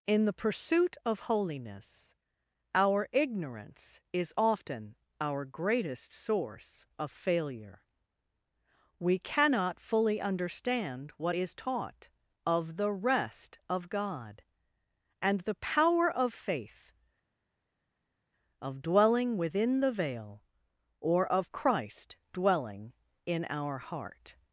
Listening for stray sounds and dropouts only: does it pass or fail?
pass